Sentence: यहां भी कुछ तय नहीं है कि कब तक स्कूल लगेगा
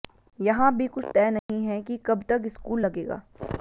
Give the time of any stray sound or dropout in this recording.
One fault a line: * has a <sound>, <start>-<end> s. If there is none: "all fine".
* has a dropout, 1.4-1.5 s